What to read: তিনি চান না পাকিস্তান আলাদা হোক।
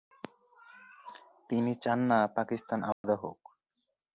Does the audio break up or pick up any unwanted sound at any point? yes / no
yes